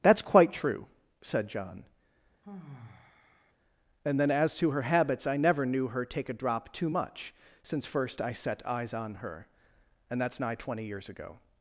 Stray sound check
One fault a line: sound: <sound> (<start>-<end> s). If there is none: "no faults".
sound: sigh (2.4-3.5 s)